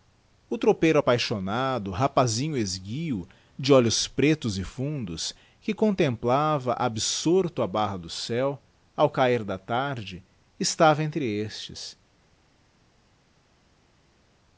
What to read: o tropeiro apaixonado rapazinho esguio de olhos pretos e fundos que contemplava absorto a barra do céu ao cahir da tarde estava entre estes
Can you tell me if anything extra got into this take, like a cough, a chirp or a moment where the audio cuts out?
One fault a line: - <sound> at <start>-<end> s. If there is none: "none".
none